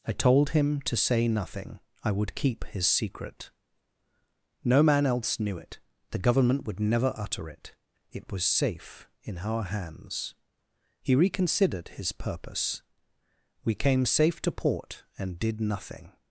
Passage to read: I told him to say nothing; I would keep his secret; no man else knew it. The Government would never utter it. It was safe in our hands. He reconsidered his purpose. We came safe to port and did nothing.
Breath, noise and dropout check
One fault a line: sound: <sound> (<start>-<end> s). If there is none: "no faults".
no faults